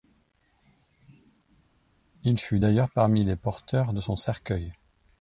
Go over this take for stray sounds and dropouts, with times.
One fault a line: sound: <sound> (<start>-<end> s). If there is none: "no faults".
no faults